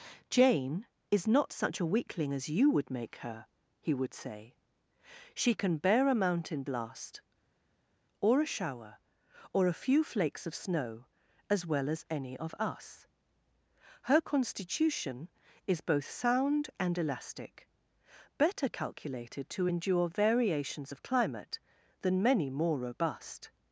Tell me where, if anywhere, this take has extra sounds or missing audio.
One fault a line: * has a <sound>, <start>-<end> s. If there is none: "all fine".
all fine